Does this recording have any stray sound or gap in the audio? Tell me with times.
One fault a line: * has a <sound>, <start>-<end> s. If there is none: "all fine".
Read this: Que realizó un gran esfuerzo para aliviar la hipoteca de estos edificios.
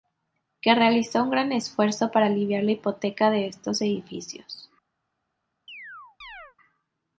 * has a chirp, 5.7-6.6 s